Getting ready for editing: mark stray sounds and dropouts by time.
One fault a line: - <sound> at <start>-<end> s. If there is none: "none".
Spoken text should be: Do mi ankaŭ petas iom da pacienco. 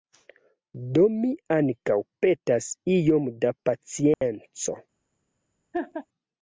- dropout at 4.1-4.2 s
- laugh at 5.7-6.1 s